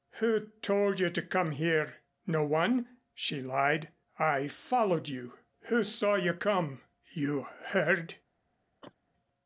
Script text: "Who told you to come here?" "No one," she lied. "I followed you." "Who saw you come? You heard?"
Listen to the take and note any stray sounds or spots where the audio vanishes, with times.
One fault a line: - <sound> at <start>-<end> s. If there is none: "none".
- cough at 8.8-8.9 s